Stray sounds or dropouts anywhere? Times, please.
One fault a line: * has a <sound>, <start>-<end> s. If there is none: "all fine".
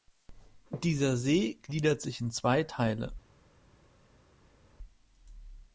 all fine